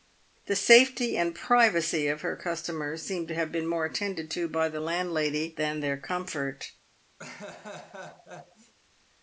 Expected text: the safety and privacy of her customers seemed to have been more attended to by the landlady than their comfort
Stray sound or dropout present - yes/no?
yes